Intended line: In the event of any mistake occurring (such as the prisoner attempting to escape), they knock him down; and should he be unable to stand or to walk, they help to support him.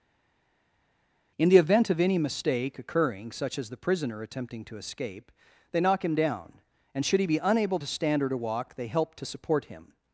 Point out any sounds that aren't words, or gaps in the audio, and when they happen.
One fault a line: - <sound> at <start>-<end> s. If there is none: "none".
none